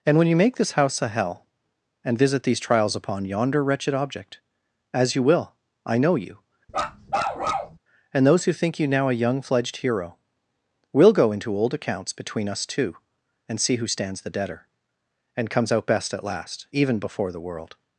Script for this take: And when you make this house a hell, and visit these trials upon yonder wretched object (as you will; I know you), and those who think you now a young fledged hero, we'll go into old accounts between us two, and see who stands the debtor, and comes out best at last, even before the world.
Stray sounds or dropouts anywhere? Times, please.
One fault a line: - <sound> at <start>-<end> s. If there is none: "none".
- bark at 6.7-7.8 s